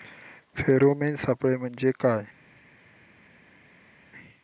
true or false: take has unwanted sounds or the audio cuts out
false